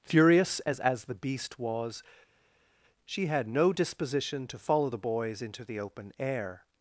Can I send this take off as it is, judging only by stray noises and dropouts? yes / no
yes